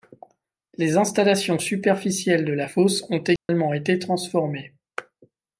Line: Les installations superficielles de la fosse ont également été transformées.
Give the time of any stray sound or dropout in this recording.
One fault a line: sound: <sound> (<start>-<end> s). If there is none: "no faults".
sound: dropout (3.4-3.5 s)